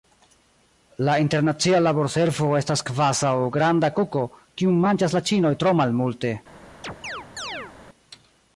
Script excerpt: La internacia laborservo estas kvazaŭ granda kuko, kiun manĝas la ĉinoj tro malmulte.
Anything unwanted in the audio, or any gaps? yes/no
yes